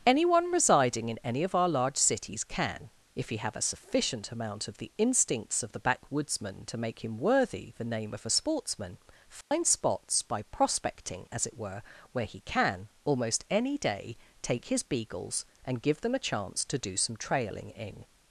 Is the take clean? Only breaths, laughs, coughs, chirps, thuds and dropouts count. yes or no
no